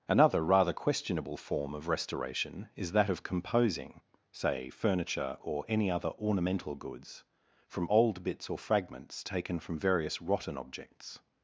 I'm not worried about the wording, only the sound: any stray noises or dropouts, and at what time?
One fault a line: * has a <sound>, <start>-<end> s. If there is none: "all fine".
all fine